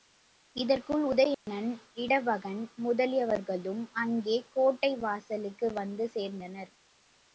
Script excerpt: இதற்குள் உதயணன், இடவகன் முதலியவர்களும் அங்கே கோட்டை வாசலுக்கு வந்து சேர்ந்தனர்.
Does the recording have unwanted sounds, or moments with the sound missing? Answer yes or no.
yes